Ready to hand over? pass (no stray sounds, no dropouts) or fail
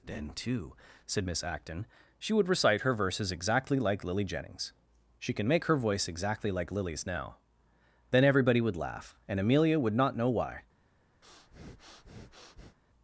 fail